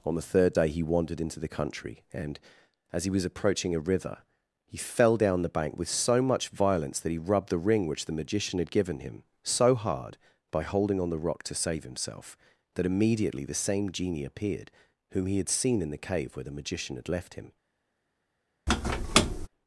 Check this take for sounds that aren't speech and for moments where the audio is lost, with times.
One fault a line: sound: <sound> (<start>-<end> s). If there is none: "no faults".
sound: squeak (18.7-19.5 s)